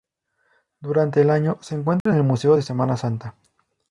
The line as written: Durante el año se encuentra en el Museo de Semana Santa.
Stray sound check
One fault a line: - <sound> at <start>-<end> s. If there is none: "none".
- dropout at 2.0-2.1 s